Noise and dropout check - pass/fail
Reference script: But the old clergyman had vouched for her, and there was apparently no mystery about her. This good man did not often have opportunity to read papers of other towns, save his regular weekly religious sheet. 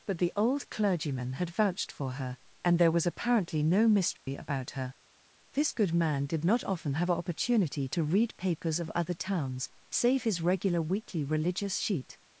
fail